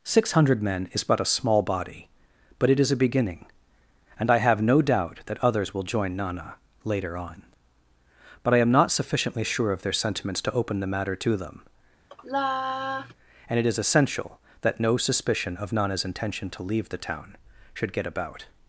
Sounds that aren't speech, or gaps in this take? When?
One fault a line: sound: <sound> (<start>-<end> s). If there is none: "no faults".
sound: sigh (12.1-13.1 s)